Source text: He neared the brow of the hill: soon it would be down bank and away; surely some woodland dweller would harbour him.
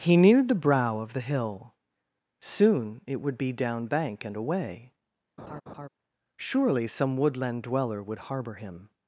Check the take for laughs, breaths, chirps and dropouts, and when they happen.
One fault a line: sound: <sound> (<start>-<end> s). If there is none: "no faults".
sound: laugh (5.4-5.9 s)